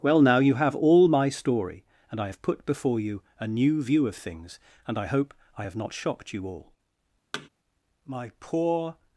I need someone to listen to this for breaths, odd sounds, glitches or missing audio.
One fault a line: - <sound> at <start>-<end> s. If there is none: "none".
- thud at 7.3-7.5 s